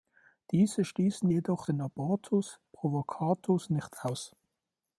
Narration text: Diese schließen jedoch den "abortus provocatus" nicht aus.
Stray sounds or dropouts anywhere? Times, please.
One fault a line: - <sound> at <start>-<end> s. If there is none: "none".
none